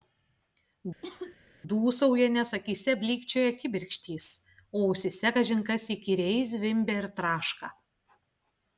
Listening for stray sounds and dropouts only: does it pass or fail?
fail